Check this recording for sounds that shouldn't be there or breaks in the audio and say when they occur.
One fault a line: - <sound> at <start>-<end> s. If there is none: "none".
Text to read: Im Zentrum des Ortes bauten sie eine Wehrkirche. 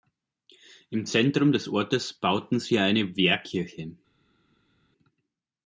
none